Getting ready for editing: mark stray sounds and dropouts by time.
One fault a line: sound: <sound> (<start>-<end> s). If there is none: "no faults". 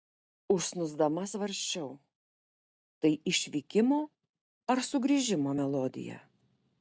no faults